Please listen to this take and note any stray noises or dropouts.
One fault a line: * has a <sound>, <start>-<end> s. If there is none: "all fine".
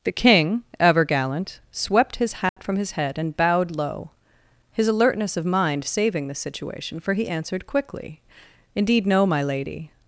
* has a dropout, 2.5-2.6 s